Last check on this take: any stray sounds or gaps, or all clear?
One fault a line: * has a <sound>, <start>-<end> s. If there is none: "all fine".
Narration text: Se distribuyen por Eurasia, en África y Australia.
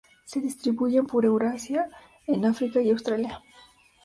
all fine